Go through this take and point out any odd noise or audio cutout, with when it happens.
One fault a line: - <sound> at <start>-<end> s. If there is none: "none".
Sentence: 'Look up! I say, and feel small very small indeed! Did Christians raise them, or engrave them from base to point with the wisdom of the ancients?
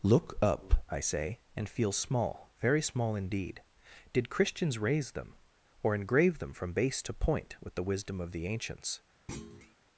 - thud at 9.3-9.8 s